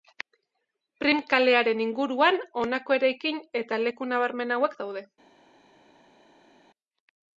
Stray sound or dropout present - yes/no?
no